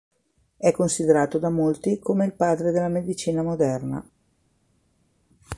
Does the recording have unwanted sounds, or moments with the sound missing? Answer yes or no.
no